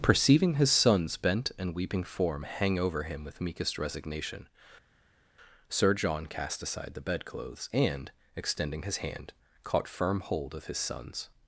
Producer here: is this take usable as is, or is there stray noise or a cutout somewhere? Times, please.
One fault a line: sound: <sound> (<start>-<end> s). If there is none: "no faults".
no faults